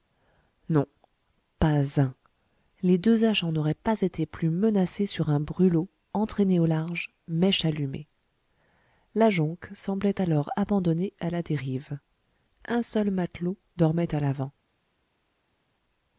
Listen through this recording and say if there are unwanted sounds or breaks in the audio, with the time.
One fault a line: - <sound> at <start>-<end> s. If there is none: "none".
none